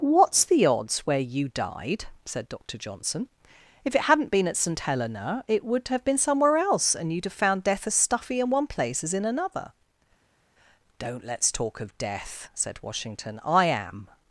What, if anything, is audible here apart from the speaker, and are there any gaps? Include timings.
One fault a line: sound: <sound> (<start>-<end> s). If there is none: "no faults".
no faults